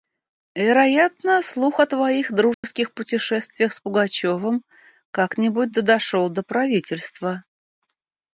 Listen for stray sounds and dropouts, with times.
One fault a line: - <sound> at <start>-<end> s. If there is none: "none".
- dropout at 2.5-2.6 s